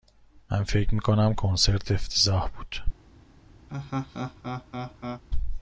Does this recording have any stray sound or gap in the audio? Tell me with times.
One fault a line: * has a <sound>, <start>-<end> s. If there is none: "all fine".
* has a laugh, 3.7-5.2 s